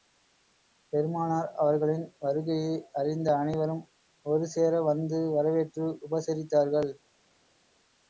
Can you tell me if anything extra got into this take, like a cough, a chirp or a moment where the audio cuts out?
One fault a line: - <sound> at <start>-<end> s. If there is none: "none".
none